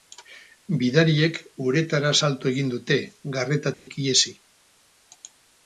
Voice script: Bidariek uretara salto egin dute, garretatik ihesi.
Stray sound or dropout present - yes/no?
yes